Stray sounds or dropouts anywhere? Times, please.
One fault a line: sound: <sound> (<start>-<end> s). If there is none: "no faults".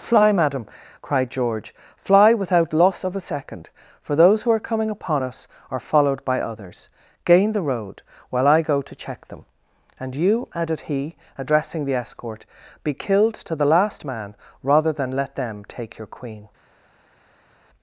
no faults